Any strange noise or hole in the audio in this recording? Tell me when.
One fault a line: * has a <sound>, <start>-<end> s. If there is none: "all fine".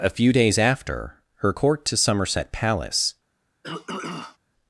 * has a throat clearing, 3.6-4.4 s